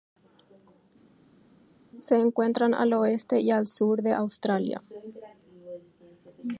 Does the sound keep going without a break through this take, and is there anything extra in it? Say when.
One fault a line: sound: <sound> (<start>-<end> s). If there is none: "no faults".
no faults